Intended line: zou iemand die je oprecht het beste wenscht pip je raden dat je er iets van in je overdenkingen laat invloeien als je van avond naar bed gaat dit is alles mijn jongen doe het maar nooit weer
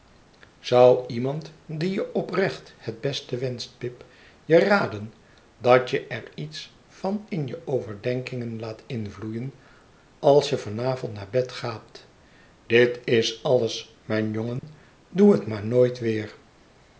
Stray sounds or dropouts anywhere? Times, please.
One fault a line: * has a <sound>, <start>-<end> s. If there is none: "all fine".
* has a dropout, 14.6-14.6 s